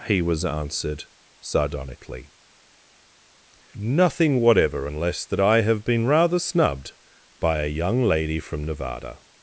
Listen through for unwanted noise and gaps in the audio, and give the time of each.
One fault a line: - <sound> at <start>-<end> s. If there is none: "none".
none